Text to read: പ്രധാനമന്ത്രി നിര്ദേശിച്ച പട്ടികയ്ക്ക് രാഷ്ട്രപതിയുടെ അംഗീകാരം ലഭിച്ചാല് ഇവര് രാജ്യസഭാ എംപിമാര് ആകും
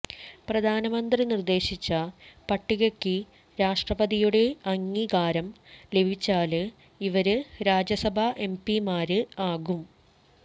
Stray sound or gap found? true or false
false